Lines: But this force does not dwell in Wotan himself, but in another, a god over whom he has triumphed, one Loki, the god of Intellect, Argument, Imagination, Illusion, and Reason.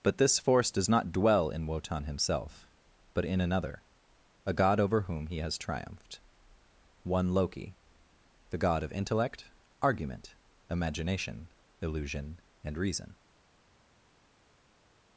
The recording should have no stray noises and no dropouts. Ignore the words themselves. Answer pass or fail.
pass